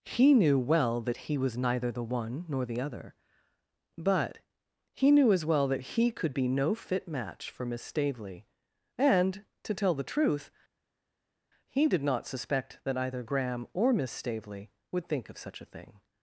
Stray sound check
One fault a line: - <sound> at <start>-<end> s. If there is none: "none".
none